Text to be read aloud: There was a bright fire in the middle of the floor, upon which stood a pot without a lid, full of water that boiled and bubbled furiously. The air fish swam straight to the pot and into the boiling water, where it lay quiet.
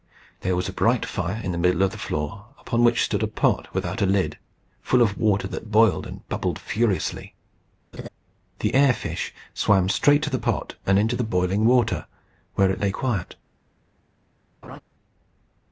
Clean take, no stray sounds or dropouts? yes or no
no